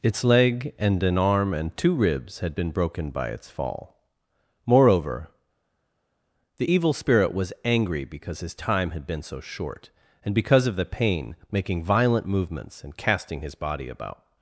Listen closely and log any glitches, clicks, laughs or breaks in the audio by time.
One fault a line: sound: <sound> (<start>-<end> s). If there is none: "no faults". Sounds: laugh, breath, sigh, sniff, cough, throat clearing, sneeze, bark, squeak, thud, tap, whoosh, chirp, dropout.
no faults